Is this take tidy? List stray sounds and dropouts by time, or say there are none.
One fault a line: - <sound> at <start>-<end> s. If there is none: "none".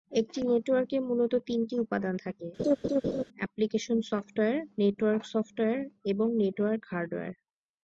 - laugh at 2.6-3.2 s